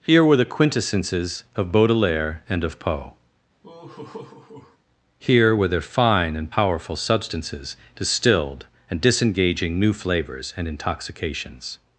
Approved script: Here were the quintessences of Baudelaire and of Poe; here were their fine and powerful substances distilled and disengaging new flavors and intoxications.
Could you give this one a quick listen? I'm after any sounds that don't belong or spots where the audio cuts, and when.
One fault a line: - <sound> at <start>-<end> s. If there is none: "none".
- laugh at 3.6-4.8 s